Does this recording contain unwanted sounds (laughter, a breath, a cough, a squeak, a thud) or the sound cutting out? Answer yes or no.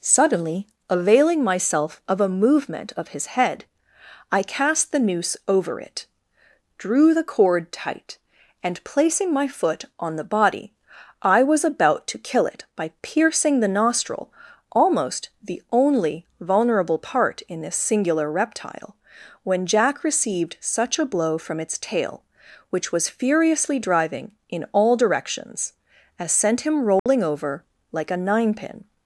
yes